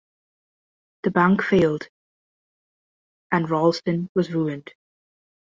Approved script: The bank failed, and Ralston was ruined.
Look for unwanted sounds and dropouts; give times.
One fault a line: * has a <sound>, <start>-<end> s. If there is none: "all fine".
all fine